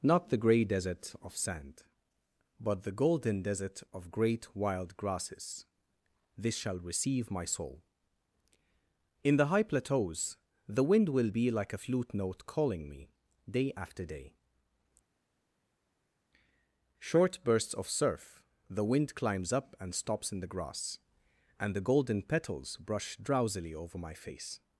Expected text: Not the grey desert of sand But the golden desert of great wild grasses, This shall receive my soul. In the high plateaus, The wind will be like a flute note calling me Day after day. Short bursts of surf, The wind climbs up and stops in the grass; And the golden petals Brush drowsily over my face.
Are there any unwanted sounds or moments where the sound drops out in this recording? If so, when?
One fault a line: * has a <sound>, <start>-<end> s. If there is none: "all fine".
all fine